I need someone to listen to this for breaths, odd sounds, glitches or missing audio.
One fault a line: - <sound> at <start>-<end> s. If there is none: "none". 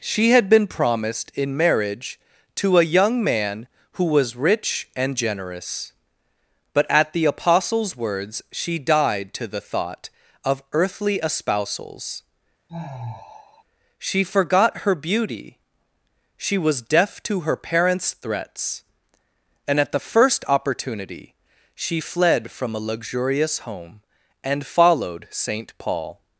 - sigh at 12.7-13.6 s